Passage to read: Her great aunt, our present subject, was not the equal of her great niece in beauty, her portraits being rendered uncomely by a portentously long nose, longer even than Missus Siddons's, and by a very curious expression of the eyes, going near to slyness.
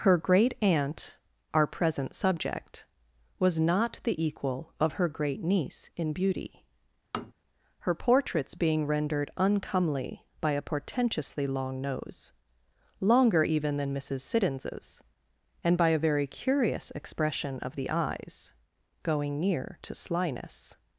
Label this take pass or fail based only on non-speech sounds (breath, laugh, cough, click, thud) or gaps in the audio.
fail